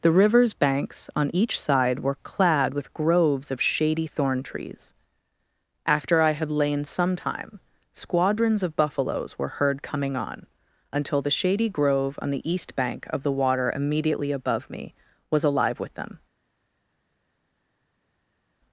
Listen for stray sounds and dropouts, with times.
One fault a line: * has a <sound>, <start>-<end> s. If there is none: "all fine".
all fine